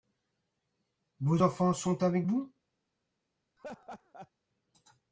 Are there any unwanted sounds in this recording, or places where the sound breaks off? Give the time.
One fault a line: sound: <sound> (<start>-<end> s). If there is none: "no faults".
sound: laugh (3.6-4.3 s)